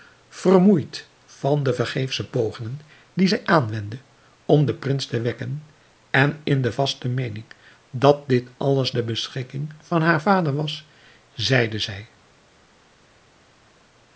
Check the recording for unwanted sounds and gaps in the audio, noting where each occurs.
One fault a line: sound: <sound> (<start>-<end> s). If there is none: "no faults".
no faults